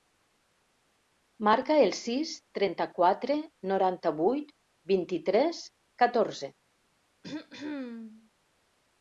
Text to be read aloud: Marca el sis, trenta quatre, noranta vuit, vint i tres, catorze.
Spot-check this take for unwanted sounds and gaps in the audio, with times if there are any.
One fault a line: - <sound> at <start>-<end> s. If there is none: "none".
- throat clearing at 7.2-8.3 s